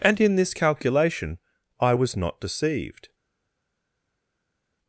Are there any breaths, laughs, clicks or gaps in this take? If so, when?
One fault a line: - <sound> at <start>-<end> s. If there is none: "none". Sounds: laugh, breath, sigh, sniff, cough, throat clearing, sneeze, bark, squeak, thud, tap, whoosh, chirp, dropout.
none